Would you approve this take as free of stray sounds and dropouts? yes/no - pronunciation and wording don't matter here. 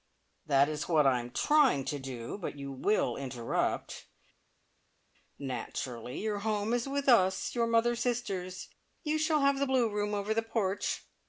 yes